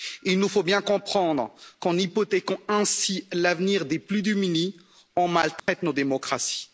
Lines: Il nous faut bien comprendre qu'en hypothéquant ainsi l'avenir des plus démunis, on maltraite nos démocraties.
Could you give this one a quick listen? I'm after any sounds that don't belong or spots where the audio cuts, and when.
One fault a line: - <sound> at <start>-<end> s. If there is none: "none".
- dropout at 5.6-5.7 s